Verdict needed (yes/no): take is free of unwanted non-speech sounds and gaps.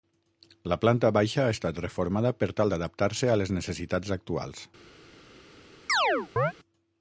no